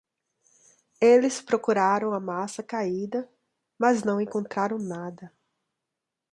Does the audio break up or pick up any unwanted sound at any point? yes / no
no